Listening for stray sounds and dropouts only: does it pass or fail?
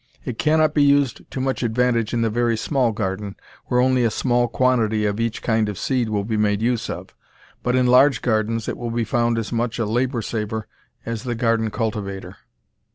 pass